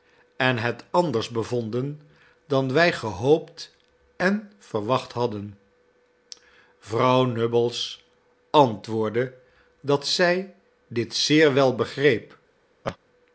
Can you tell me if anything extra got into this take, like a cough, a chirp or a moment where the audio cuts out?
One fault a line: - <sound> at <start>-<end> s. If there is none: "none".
- laugh at 12.8-13.0 s